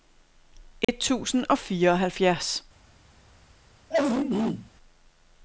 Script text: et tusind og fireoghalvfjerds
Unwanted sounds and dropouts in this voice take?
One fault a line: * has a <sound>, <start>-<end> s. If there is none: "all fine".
* has a dropout, 0.8-0.9 s
* has a throat clearing, 3.9-4.7 s